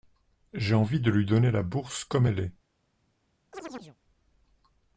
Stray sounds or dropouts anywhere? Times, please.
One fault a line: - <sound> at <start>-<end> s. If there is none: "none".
- chirp at 3.5-4.0 s